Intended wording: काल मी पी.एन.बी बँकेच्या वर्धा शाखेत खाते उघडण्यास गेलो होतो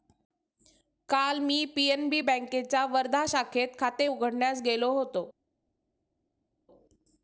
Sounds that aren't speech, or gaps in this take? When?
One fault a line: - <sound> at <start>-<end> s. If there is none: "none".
none